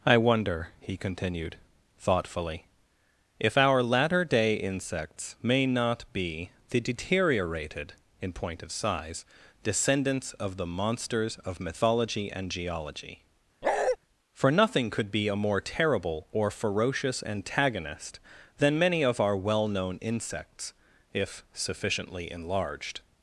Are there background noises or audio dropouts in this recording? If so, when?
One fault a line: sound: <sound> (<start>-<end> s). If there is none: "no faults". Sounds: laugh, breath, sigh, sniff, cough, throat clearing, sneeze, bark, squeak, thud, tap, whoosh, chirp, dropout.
sound: bark (13.6-14.0 s)